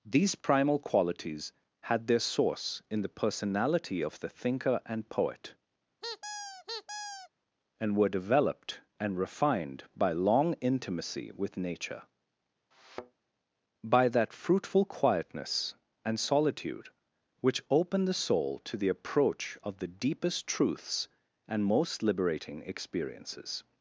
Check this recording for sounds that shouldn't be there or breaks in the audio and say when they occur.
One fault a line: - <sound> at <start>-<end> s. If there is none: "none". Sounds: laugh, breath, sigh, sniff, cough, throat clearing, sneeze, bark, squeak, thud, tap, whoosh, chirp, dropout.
- squeak at 6.0-7.3 s
- thud at 12.7-13.2 s